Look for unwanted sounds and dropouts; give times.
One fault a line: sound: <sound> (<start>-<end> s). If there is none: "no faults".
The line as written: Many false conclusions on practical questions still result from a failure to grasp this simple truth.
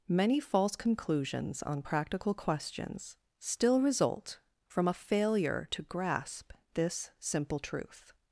no faults